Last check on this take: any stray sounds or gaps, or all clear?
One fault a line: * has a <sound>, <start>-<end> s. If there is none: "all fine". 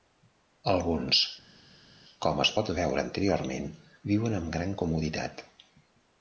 all fine